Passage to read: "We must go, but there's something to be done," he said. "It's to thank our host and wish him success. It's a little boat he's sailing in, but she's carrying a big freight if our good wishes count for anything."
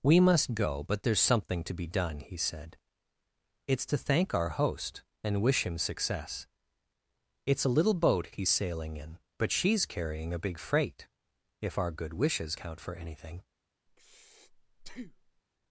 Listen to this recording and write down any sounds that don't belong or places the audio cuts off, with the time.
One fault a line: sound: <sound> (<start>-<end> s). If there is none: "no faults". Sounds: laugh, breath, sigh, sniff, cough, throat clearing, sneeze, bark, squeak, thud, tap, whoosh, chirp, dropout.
sound: breath (13.9-15.4 s)